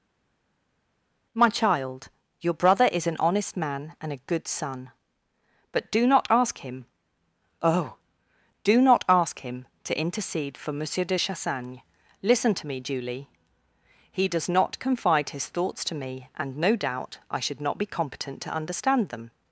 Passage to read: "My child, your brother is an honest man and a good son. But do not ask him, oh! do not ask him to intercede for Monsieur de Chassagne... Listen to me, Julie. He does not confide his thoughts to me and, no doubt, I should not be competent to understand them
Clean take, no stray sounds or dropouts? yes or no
yes